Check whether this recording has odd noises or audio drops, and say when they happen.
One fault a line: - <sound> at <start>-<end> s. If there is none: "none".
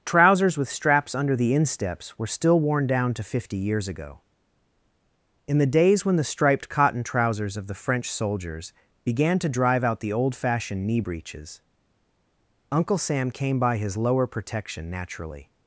none